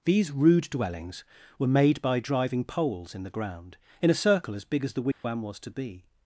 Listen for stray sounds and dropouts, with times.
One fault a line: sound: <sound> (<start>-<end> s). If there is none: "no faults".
sound: dropout (5.1-5.2 s)